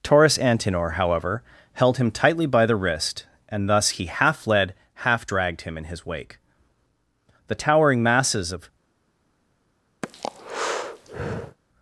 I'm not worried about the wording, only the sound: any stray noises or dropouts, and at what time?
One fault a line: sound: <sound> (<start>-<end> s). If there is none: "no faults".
sound: breath (10.0-11.6 s)